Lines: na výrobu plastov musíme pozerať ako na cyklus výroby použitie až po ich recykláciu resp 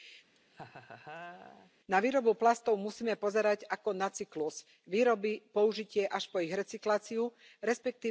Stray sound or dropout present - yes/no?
yes